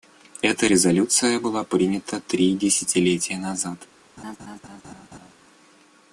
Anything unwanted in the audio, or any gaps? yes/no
yes